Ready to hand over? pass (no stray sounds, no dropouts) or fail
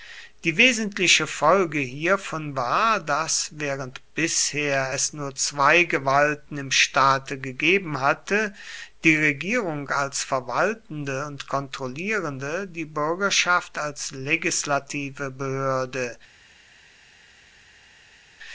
pass